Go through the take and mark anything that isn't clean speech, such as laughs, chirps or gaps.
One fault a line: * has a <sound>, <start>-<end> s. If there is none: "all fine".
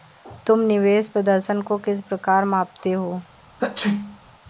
* has a sneeze, 3.6-4.2 s